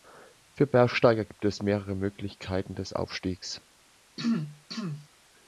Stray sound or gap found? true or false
true